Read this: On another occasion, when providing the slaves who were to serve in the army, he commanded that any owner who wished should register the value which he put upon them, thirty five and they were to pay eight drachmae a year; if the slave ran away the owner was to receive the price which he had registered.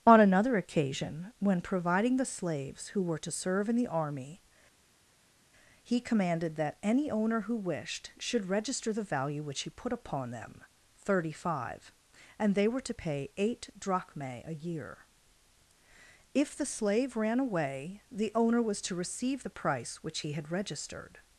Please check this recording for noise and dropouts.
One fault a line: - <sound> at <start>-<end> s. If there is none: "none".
none